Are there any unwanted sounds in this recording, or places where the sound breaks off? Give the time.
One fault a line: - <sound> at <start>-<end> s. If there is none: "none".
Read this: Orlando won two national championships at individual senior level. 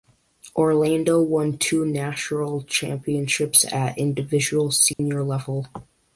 - dropout at 4.9-5.0 s